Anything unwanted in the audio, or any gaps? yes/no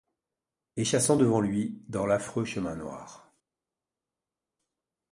no